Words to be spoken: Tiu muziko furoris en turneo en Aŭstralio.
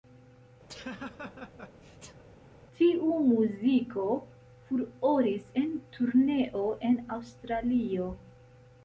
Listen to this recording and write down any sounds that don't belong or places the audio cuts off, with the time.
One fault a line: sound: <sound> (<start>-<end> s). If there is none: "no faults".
sound: laugh (0.7-2.2 s)